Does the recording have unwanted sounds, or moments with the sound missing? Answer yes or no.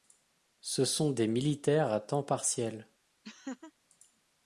yes